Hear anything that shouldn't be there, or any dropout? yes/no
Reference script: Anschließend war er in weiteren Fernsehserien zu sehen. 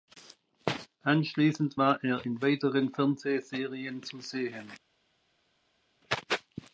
no